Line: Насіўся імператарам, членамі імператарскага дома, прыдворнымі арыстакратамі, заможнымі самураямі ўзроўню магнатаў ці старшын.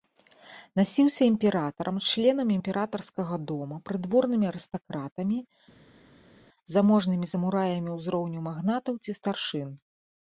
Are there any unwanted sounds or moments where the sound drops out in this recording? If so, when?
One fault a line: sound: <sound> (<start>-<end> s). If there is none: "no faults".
no faults